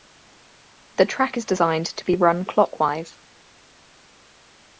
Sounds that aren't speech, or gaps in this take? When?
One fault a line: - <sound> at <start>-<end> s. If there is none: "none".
none